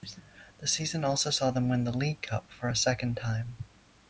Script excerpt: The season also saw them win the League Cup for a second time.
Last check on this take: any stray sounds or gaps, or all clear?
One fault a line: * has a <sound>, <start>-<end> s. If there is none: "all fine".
all fine